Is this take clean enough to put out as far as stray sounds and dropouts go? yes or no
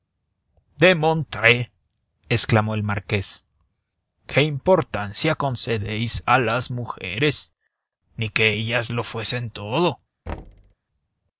no